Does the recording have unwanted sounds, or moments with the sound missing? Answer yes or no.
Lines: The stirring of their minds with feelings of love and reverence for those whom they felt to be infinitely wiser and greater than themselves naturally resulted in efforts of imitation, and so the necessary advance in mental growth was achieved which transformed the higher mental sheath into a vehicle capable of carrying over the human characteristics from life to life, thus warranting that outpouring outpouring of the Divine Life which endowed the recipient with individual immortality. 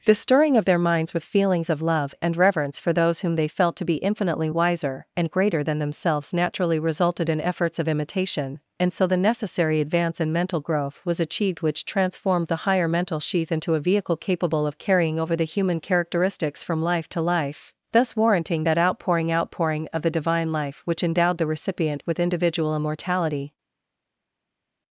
no